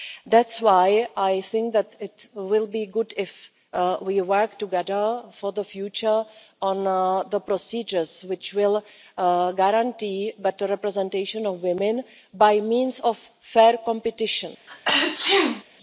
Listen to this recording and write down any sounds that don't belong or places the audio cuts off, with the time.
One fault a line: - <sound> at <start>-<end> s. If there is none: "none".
- sneeze at 14.7-15.6 s